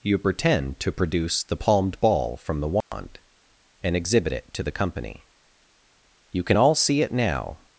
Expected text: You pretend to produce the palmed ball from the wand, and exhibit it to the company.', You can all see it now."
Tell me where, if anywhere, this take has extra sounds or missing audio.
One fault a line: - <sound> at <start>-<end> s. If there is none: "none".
- dropout at 2.8-2.9 s